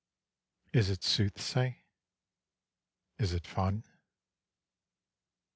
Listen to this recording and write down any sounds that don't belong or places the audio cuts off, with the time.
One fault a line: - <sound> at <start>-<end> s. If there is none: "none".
none